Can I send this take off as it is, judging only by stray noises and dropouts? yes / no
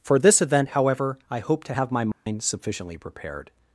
no